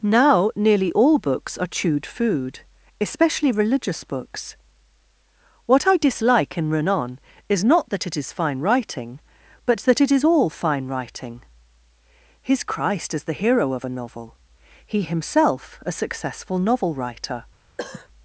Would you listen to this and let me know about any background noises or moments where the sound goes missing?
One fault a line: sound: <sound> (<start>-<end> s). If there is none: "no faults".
sound: cough (17.8-18.1 s)